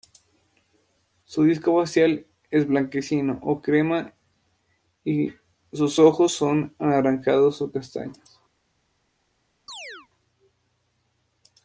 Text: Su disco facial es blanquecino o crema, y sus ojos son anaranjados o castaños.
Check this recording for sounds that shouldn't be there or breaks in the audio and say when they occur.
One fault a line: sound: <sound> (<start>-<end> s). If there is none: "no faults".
sound: chirp (9.7-10.1 s)